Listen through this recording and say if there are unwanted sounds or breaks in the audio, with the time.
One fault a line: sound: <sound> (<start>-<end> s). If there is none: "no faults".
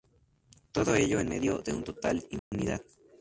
sound: dropout (2.4-2.5 s)